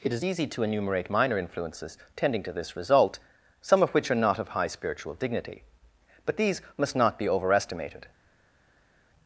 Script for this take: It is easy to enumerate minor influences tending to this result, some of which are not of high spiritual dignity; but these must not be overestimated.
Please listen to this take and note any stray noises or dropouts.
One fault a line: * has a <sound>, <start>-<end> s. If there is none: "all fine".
all fine